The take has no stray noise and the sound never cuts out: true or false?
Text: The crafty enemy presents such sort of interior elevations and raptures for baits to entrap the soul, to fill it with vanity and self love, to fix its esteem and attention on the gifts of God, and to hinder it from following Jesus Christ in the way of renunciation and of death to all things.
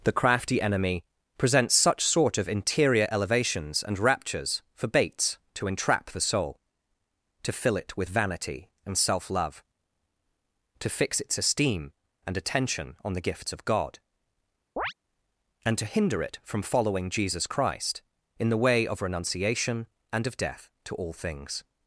false